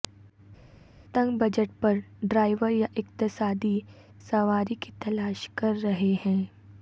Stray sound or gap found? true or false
false